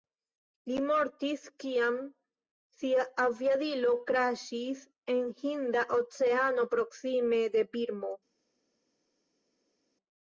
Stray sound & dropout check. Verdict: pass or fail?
pass